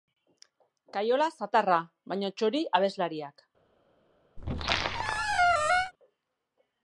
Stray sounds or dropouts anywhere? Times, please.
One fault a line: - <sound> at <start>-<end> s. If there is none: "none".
- squeak at 4.4-5.9 s